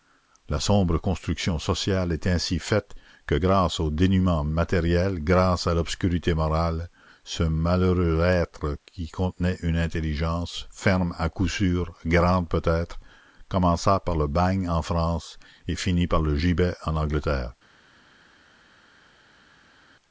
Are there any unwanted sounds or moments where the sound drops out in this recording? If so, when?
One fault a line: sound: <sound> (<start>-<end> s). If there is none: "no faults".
no faults